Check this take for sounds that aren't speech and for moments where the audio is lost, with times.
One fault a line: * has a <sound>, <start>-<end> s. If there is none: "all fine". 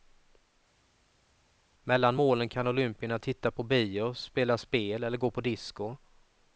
all fine